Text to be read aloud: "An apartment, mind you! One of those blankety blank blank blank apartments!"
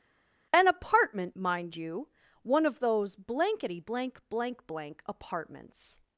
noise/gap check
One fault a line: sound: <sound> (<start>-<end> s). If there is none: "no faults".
no faults